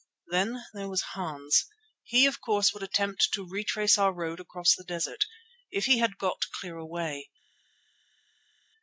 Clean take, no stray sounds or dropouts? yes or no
yes